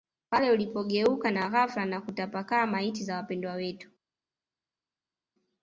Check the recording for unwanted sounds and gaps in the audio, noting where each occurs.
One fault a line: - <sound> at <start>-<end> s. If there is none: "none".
none